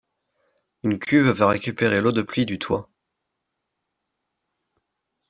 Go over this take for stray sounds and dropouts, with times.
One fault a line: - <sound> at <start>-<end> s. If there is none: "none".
none